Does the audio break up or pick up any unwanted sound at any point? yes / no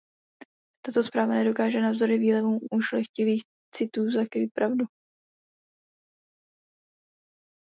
no